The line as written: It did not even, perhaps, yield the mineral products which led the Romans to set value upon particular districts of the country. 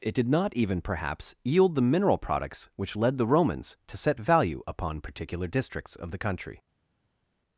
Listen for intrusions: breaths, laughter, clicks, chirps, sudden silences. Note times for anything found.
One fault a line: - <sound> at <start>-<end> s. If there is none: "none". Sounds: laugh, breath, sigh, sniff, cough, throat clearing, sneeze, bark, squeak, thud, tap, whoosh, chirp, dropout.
none